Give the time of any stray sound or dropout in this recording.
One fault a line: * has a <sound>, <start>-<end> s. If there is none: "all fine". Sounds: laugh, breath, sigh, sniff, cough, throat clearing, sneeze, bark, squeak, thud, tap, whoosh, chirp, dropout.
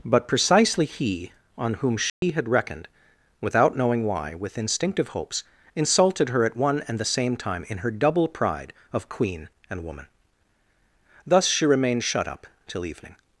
* has a dropout, 2.1-2.2 s